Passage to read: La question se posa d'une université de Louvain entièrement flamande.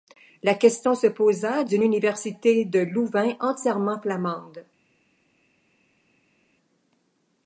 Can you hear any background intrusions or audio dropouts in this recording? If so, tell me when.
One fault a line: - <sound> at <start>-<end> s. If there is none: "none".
none